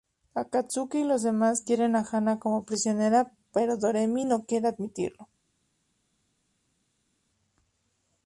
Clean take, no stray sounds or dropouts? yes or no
yes